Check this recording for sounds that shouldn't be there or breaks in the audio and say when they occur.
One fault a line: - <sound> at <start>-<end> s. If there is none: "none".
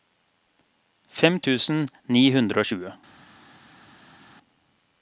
none